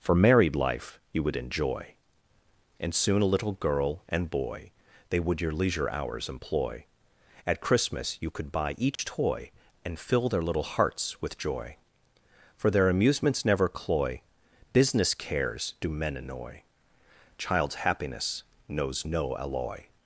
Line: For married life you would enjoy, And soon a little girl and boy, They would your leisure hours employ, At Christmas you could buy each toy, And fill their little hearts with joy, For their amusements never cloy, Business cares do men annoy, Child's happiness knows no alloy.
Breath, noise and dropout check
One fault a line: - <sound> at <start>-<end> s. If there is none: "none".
- dropout at 9.0-9.0 s